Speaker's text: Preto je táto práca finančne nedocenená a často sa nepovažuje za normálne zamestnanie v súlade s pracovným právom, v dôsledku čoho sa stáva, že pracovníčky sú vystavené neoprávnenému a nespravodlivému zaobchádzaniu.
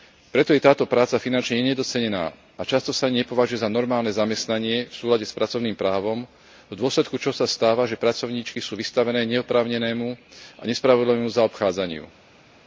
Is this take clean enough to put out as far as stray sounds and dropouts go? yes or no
yes